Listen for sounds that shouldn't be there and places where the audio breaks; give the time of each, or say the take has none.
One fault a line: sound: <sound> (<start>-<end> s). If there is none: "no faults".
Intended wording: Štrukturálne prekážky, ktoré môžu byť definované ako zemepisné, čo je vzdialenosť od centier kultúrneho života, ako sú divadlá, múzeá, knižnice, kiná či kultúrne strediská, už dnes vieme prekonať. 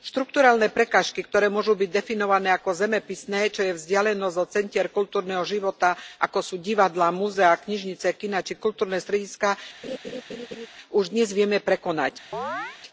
sound: laugh (9.8-10.7 s)
sound: chirp (12.3-12.8 s)